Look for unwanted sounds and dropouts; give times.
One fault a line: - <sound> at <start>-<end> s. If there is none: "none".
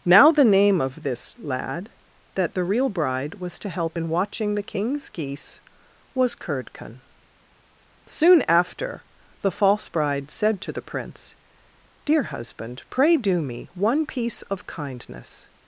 none